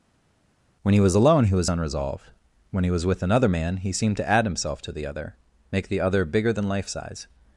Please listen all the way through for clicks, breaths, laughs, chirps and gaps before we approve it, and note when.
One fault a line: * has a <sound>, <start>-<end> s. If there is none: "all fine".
all fine